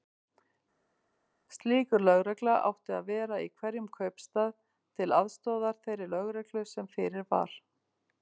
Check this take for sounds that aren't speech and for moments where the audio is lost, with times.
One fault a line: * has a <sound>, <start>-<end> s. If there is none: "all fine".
all fine